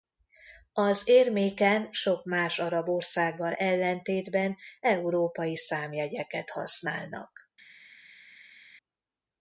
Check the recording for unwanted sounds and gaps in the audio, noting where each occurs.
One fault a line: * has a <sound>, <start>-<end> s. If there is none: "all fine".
all fine